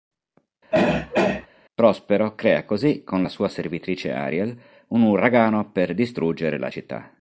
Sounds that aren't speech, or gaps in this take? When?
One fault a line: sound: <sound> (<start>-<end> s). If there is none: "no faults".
sound: throat clearing (0.7-1.5 s)